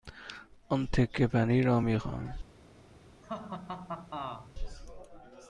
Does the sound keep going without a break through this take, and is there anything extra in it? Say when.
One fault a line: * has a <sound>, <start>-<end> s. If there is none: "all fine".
* has a laugh, 3.2-4.5 s